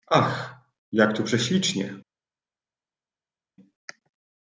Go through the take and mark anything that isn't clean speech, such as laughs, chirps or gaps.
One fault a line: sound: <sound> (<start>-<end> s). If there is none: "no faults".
no faults